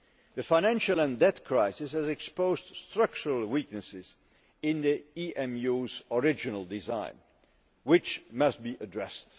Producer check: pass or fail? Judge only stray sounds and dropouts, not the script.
pass